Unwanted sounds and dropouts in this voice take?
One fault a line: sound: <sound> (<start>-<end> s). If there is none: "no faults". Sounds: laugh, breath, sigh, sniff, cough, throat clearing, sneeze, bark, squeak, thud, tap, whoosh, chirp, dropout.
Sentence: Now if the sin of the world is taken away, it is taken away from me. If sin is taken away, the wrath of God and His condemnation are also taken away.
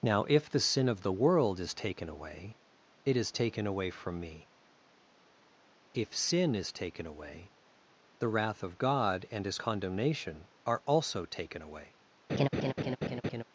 sound: laugh (12.3-13.4 s)